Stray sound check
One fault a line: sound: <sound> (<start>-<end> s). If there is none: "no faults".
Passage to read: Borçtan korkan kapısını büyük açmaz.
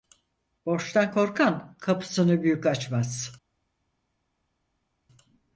no faults